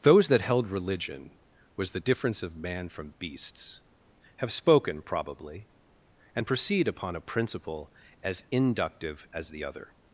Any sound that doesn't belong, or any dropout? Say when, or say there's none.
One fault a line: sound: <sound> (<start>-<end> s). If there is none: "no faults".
no faults